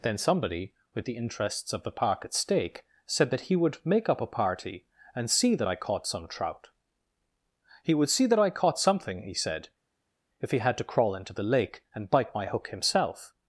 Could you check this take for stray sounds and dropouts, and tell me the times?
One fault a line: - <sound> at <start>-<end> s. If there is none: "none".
none